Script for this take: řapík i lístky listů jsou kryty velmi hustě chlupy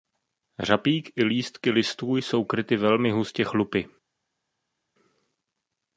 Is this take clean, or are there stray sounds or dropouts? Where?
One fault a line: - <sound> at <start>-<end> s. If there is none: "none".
none